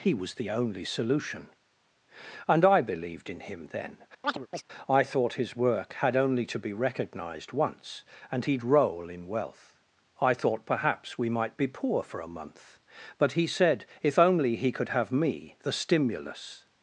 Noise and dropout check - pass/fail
fail